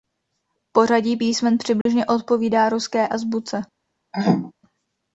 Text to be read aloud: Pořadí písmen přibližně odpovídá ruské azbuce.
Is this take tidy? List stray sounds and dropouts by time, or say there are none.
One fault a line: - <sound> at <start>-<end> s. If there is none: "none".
- dropout at 1.8-1.9 s
- throat clearing at 4.1-4.5 s